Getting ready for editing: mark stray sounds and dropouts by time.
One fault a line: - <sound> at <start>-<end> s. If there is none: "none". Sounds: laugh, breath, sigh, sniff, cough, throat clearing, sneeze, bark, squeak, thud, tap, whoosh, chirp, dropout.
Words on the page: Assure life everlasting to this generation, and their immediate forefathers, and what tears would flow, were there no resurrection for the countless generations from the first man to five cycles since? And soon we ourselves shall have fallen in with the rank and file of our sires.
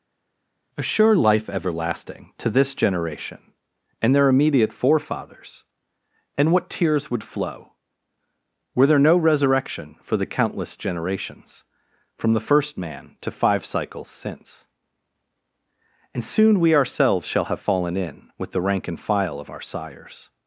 none